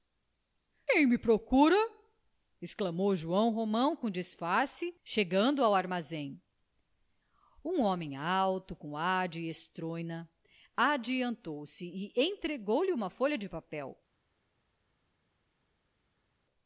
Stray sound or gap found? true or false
false